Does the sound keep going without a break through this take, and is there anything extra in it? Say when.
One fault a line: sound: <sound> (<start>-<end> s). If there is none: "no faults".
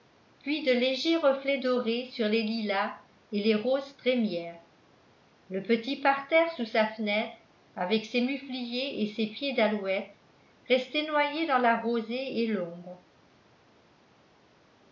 no faults